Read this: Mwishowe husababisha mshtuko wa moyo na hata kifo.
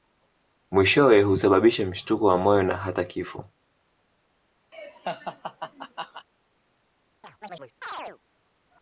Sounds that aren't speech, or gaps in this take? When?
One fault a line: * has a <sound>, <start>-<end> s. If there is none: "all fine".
* has a laugh, 4.7-6.3 s
* has a chirp, 7.2-8.2 s